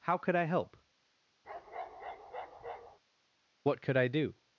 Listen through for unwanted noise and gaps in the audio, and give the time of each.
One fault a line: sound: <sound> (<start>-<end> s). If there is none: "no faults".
sound: bark (1.4-3.0 s)